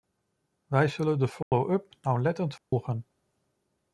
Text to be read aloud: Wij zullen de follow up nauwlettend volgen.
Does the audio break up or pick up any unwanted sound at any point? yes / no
yes